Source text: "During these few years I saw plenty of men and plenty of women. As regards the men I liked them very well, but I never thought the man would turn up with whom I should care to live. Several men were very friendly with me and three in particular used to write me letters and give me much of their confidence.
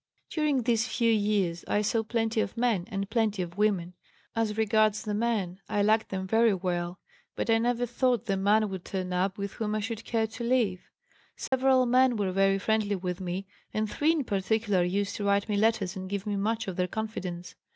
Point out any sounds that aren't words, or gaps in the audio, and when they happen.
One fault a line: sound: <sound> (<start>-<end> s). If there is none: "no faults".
sound: dropout (11.5-11.5 s)